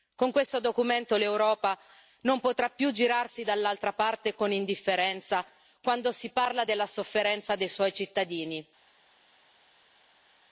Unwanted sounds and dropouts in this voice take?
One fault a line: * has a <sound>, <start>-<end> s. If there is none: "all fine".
all fine